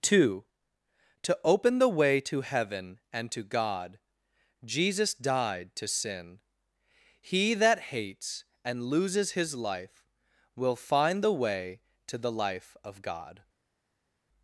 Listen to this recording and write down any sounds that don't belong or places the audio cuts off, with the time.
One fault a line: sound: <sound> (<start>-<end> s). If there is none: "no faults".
no faults